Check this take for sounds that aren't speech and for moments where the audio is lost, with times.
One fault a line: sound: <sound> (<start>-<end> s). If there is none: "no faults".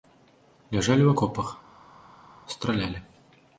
no faults